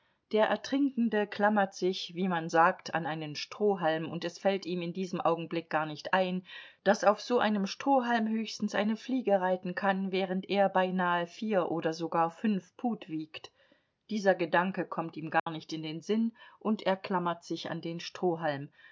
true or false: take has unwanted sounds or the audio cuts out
true